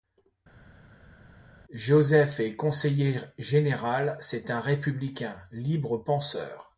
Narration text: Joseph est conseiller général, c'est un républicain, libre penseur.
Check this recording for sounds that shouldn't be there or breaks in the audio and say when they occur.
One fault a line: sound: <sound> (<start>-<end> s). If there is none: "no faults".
no faults